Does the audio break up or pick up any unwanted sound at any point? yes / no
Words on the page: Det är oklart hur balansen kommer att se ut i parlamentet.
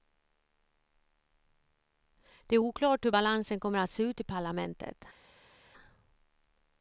no